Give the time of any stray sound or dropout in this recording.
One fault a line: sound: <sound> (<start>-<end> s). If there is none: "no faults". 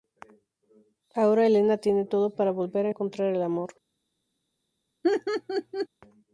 sound: laugh (5.0-5.9 s)